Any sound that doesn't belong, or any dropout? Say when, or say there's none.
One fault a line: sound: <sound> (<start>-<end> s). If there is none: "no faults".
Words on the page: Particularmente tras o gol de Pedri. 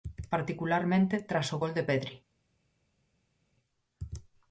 no faults